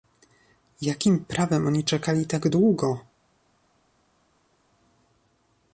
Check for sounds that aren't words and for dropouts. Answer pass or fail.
pass